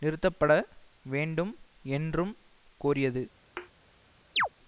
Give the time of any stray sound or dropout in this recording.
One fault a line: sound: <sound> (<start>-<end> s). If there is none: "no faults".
sound: thud (3.6-3.7 s)
sound: chirp (4.4-4.5 s)